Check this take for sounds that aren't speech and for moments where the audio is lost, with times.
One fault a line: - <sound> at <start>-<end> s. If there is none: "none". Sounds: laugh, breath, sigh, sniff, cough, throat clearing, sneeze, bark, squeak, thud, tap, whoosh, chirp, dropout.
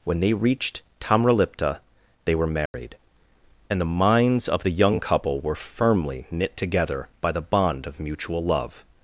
- dropout at 2.7-2.7 s